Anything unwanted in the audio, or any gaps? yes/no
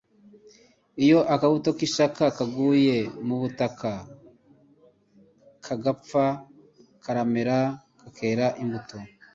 no